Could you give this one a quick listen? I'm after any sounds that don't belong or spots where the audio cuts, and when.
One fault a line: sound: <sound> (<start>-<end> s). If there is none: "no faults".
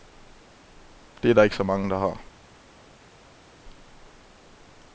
no faults